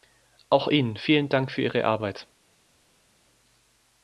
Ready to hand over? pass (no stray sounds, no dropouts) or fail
pass